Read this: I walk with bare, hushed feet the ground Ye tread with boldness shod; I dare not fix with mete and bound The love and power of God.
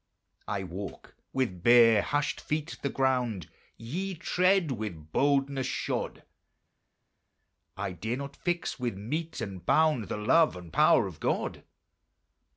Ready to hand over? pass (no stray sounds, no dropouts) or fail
pass